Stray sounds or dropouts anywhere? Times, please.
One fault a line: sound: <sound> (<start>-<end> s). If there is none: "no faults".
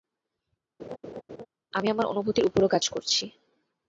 sound: laugh (0.8-1.5 s)